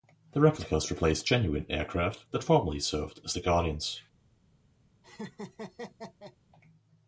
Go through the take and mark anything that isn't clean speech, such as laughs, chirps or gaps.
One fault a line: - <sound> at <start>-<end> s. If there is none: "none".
- laugh at 5.0-6.4 s